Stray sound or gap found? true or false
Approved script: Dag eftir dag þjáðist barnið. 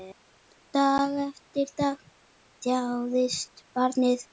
false